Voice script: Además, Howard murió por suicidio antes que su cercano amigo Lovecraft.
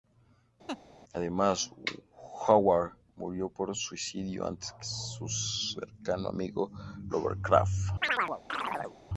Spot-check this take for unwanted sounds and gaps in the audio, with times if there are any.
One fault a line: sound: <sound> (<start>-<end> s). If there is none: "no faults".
sound: laugh (0.7-0.8 s)
sound: chirp (8.0-9.0 s)